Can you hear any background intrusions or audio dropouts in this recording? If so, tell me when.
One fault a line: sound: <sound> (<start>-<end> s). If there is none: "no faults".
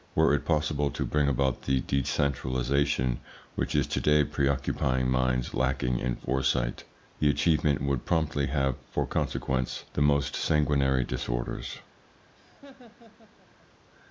sound: laugh (12.3-13.7 s)